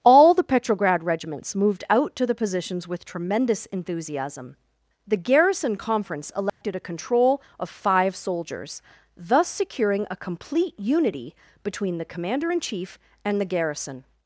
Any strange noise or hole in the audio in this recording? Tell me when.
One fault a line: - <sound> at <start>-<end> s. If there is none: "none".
- dropout at 6.5-6.6 s